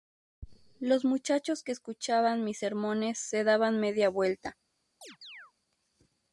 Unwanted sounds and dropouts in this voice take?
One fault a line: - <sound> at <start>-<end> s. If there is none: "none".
- chirp at 5.0-5.5 s